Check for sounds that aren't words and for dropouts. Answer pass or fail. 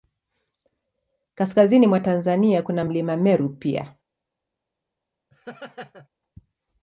fail